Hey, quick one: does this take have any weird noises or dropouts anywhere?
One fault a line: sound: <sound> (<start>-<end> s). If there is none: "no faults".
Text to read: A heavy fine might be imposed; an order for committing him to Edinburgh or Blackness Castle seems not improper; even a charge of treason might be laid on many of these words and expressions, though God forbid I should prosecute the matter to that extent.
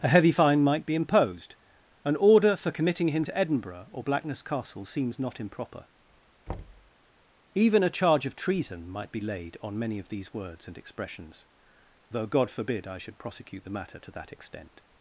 sound: thud (6.5-6.9 s)